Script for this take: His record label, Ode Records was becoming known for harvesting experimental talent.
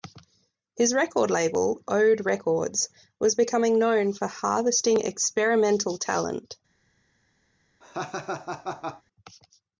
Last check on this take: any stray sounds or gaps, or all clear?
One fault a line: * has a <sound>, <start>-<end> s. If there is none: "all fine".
* has a laugh, 7.8-9.0 s